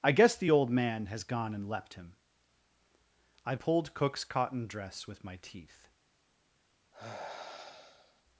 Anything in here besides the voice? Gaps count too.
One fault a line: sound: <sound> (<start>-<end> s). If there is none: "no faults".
sound: sigh (6.9-8.2 s)